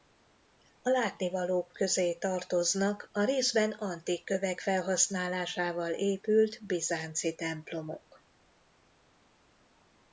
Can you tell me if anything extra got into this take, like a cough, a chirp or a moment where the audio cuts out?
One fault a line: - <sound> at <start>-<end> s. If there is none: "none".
none